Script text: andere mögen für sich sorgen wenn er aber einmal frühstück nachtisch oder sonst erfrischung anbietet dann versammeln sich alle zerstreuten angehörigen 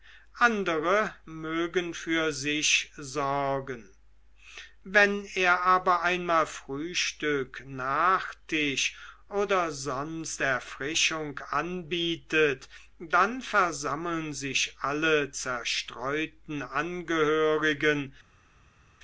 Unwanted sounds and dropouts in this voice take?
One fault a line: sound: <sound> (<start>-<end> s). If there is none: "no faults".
no faults